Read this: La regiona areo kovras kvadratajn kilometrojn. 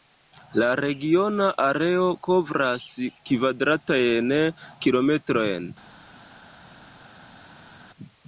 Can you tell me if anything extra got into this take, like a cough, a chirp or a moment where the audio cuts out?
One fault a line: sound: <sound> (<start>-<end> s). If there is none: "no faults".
no faults